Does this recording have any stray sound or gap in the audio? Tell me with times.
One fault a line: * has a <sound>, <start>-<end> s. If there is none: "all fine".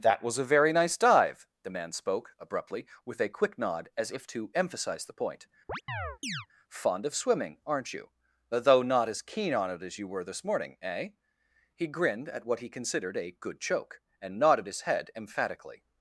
* has a chirp, 5.7-6.5 s